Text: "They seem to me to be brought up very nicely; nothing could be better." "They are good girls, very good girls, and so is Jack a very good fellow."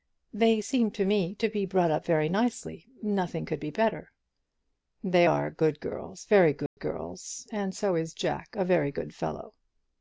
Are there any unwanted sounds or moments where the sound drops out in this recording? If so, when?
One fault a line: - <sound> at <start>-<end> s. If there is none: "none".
- dropout at 6.7-6.8 s